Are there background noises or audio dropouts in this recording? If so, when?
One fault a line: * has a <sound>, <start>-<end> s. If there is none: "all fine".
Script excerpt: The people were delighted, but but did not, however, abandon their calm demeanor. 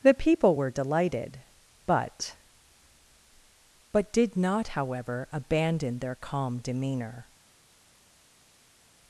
all fine